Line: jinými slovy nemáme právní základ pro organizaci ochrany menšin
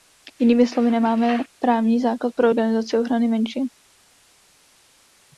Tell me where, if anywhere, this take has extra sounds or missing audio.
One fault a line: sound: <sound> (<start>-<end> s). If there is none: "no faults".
no faults